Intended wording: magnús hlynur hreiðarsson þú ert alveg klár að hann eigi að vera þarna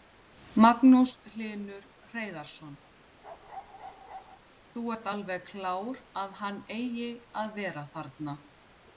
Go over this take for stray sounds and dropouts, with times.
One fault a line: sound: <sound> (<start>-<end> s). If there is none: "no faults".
sound: bark (3.2-4.4 s)